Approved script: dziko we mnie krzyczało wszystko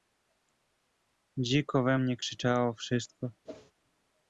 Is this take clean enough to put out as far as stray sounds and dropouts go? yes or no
no